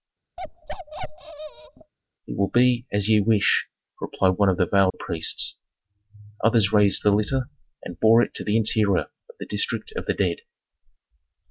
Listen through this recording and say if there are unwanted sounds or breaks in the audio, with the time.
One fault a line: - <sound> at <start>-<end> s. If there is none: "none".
- bark at 0.4-1.9 s
- dropout at 4.9-4.9 s